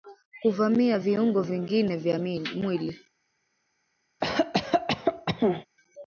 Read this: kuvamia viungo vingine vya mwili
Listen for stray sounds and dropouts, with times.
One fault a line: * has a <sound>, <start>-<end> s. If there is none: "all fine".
* has a cough, 4.2-5.7 s